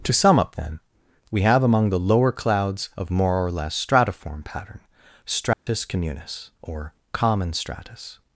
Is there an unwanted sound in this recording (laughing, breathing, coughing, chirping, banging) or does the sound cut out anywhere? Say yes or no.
yes